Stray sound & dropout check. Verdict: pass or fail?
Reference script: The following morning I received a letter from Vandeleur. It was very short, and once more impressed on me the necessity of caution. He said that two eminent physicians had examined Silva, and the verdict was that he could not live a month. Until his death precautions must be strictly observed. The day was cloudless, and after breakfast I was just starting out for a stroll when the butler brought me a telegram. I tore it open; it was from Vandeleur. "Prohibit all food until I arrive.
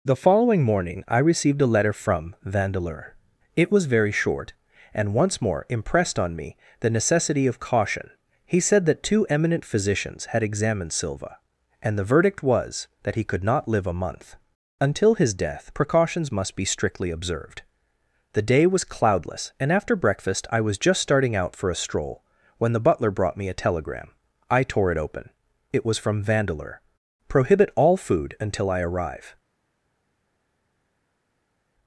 pass